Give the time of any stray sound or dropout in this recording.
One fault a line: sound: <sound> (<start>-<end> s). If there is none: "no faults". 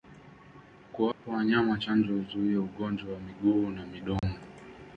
sound: dropout (1.1-1.2 s)
sound: dropout (4.2-4.2 s)